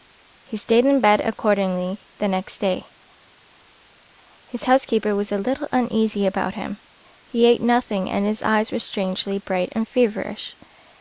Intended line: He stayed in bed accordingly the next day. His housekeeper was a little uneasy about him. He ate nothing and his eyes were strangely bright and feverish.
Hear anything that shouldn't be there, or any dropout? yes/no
no